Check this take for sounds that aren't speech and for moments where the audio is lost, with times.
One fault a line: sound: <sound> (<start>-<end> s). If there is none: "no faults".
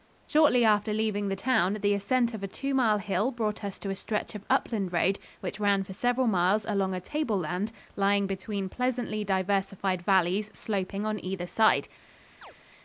sound: chirp (12.4-12.5 s)